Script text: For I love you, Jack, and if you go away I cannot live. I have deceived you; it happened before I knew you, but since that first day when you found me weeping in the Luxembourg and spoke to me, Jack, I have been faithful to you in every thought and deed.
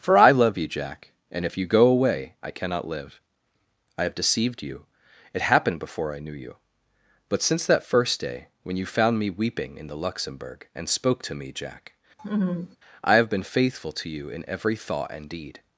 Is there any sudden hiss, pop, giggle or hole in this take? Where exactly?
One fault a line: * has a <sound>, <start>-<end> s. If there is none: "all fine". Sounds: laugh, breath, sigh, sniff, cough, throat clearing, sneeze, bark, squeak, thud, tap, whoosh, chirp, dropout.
* has a laugh, 12.2-12.8 s